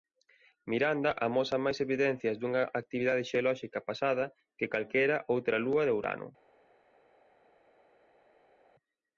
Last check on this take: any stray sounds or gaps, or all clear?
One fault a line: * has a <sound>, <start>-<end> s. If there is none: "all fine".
all fine